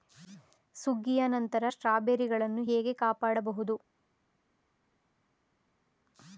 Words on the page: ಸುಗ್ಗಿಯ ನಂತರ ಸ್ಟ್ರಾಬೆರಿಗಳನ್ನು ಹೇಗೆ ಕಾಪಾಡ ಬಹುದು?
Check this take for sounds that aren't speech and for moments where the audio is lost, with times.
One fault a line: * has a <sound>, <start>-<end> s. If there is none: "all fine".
all fine